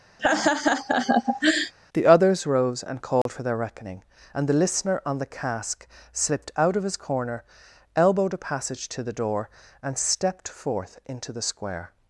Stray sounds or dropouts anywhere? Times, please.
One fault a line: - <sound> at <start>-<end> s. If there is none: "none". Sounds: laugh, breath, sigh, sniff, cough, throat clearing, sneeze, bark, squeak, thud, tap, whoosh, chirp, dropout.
- laugh at 0.2-1.7 s
- dropout at 3.2-3.3 s